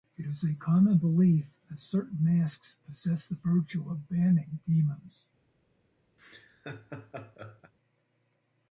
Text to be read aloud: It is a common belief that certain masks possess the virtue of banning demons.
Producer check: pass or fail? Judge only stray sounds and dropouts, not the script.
fail